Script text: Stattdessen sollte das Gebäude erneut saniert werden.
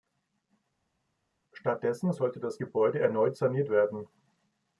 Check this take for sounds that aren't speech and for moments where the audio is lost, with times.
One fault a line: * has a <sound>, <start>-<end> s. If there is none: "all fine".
all fine